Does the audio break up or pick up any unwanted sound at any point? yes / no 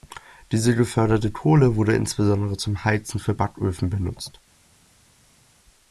no